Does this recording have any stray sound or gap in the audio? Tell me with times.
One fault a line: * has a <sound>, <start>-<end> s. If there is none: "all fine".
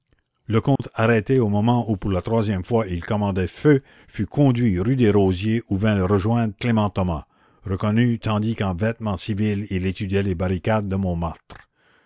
* has a dropout, 0.8-0.8 s